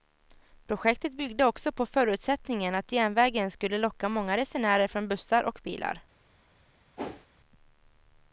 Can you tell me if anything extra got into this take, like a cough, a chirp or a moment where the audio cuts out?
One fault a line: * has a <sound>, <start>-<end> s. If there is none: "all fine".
* has a whoosh, 7.0-7.3 s